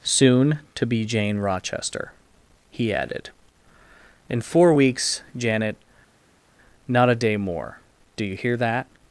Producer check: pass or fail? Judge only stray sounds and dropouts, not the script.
pass